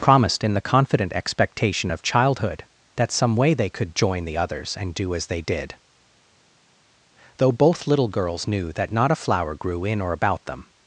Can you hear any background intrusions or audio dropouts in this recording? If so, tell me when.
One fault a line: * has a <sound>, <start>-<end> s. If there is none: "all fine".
all fine